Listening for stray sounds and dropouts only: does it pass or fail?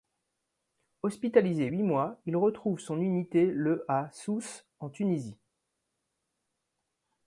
pass